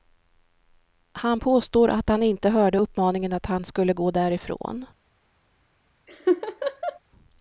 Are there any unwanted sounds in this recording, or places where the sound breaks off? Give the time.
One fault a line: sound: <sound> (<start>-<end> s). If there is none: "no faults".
sound: laugh (6.1-7.0 s)